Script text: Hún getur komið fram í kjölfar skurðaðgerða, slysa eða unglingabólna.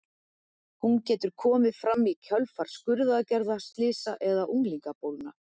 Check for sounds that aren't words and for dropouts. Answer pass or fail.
pass